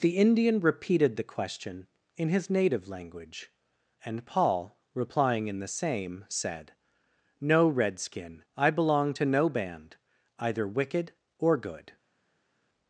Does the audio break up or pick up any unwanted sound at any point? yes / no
no